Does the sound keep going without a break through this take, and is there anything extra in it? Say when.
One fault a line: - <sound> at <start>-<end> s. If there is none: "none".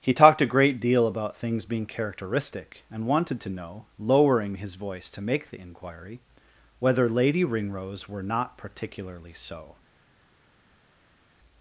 none